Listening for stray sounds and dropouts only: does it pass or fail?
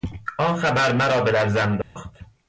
fail